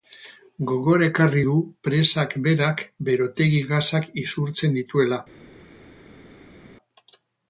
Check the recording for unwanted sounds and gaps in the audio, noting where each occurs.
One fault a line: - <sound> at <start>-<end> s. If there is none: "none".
none